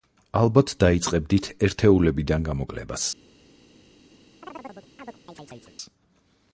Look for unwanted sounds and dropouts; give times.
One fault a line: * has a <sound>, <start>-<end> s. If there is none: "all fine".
* has a chirp, 4.4-5.8 s